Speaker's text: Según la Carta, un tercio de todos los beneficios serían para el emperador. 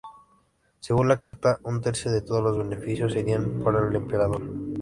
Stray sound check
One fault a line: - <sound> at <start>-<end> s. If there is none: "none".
- dropout at 1.2-1.3 s